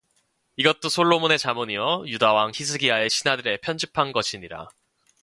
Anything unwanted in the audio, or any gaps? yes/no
no